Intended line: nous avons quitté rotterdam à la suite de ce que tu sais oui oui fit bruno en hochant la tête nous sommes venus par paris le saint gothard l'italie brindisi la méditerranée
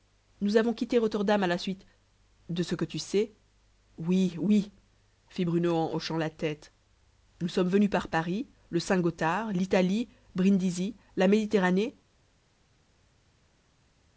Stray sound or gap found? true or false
false